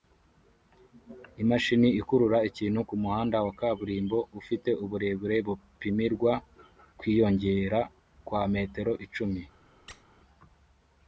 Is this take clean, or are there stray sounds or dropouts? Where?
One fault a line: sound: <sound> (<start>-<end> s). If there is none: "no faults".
sound: squeak (9.9-10.0 s)